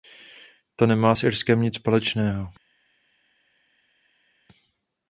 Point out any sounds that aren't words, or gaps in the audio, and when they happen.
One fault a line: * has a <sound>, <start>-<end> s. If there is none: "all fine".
all fine